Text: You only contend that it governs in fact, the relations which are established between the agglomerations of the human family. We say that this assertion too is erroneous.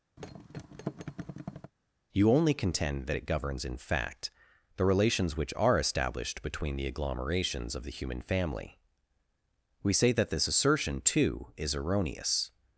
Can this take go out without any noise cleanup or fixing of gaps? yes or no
no